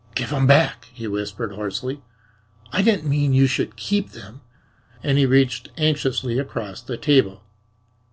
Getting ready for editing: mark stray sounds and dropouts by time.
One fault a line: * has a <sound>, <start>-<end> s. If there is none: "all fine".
all fine